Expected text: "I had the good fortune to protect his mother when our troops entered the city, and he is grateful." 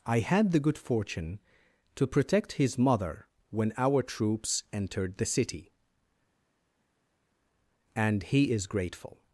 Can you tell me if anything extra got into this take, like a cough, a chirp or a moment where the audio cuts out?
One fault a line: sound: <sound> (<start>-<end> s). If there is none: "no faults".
no faults